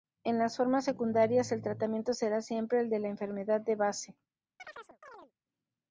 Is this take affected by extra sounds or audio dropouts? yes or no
yes